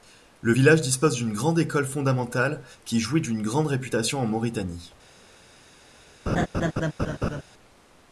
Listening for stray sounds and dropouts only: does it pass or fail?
fail